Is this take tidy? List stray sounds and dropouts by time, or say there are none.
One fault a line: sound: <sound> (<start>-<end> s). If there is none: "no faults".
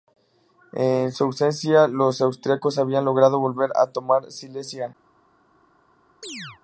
sound: chirp (6.2-6.6 s)